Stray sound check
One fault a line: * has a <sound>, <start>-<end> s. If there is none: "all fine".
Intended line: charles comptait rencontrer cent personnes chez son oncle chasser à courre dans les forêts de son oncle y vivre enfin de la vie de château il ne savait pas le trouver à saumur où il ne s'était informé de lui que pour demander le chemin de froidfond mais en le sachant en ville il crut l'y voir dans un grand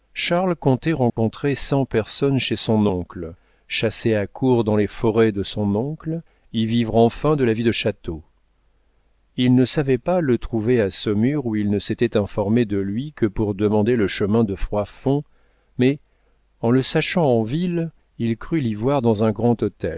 * has a dropout, 1.1-1.2 s